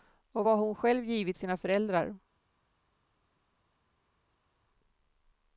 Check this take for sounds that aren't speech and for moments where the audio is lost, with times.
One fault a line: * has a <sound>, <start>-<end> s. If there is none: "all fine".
all fine